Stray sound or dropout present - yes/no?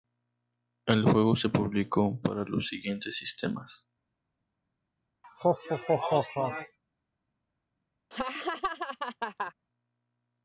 yes